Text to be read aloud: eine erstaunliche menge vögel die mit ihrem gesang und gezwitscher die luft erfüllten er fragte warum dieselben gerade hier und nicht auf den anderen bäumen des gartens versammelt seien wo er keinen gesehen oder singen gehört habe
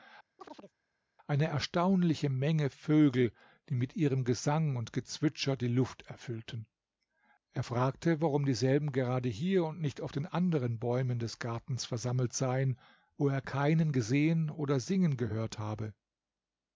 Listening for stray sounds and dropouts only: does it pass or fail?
fail